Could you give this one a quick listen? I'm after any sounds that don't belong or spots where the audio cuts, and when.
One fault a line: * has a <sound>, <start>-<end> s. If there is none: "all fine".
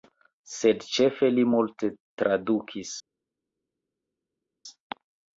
all fine